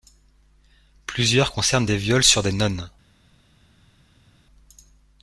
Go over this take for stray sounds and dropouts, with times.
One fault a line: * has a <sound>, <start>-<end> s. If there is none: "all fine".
all fine